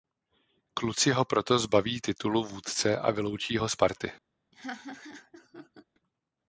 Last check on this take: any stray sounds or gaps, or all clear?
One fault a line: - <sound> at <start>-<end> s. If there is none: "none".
- laugh at 4.5-5.9 s